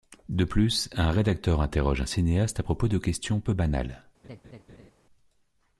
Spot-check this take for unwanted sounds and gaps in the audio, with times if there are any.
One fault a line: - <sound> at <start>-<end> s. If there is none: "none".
- laugh at 4.2-4.9 s